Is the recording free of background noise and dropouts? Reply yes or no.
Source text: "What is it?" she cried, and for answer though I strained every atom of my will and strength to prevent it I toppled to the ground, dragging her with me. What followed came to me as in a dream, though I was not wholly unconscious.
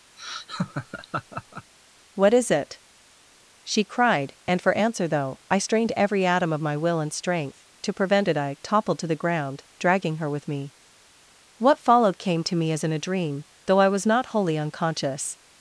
no